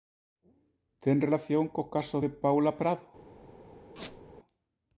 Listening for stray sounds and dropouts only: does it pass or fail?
fail